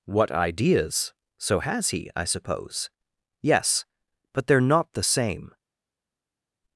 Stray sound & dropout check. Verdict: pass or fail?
pass